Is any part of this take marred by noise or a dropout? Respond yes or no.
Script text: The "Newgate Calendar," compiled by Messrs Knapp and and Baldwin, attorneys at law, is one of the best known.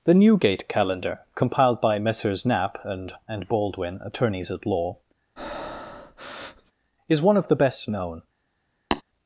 yes